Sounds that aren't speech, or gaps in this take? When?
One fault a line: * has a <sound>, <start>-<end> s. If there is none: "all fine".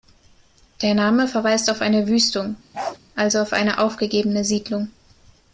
* has a bark, 2.7-3.0 s